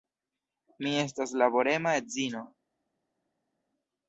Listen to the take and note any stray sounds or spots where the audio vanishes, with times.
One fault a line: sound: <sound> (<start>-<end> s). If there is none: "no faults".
no faults